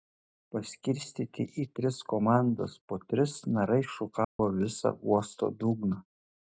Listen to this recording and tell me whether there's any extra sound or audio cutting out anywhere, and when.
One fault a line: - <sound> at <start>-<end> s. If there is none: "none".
- dropout at 4.2-4.4 s